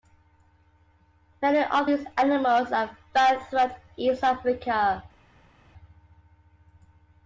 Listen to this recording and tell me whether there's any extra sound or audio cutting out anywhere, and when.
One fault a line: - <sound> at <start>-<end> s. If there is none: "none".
none